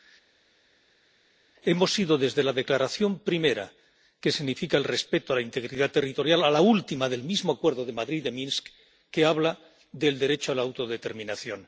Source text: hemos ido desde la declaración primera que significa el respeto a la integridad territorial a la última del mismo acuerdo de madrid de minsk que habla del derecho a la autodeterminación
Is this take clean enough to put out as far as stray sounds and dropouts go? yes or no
yes